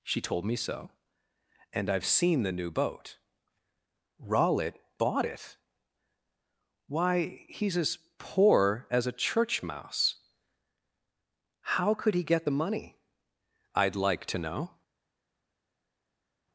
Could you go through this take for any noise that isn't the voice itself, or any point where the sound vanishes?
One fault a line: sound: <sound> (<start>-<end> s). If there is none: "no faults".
no faults